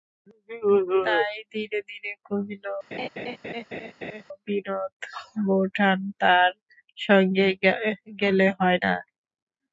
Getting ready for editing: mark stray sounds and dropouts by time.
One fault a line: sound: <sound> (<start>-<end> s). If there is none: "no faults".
sound: laugh (2.9-4.2 s)